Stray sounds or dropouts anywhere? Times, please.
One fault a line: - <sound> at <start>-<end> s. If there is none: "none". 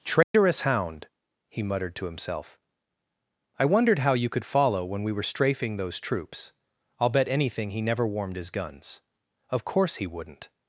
- dropout at 0.2-0.3 s